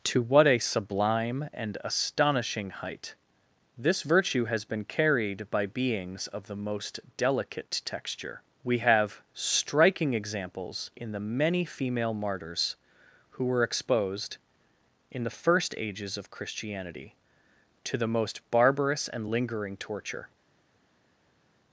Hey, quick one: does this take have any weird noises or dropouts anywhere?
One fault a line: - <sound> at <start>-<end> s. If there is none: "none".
none